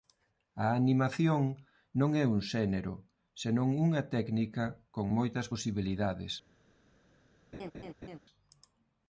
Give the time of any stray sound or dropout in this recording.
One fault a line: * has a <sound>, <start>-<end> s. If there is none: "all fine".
* has a laugh, 7.5-8.2 s